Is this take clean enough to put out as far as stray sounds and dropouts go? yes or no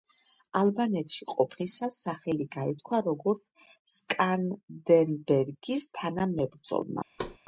no